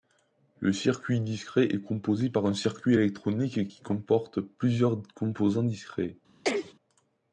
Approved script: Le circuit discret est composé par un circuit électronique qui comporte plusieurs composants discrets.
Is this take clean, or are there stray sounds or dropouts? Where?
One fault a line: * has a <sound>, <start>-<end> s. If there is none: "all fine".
* has a sneeze, 6.4-6.7 s